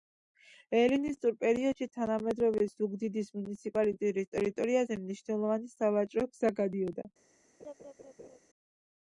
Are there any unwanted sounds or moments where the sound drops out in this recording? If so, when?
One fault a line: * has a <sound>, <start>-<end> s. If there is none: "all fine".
* has a laugh, 7.6-8.4 s